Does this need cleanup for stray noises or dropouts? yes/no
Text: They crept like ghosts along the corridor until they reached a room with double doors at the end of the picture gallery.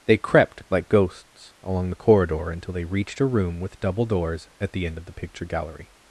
no